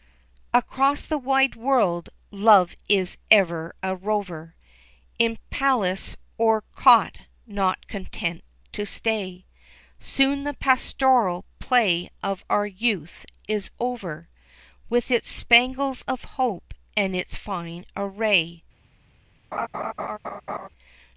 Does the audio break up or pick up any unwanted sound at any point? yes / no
yes